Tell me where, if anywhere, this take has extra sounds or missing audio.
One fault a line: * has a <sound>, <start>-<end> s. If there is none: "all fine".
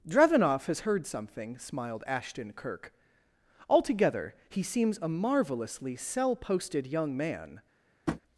* has a tap, 8.1-8.2 s